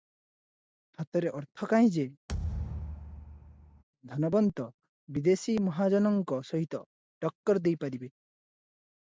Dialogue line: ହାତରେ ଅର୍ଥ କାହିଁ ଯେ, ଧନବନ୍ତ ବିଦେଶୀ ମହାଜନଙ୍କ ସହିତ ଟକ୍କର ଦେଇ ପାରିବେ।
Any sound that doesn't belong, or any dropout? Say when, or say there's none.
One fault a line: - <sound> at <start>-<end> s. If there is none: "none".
- thud at 2.3-3.8 s